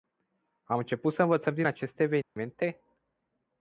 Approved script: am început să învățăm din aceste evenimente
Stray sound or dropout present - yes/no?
yes